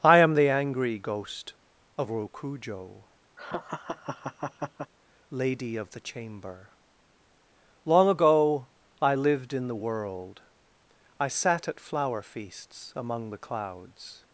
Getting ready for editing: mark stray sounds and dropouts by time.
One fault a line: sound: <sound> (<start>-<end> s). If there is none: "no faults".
sound: laugh (3.4-4.9 s)